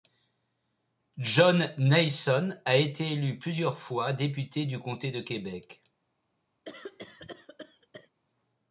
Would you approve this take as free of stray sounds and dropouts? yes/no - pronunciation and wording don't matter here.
no